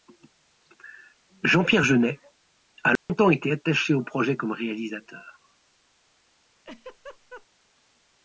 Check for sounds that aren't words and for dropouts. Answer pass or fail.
fail